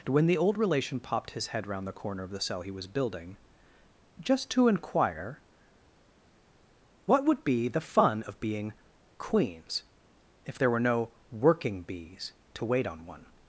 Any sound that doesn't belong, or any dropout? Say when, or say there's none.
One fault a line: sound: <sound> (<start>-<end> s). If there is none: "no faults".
no faults